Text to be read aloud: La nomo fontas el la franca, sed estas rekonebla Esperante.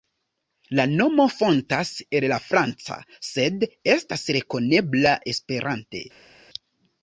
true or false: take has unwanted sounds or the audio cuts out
false